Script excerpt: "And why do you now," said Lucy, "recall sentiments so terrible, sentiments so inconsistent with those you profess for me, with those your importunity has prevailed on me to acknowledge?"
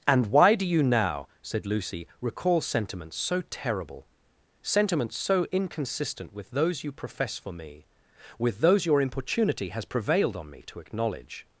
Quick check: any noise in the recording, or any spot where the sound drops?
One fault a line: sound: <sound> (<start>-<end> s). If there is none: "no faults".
no faults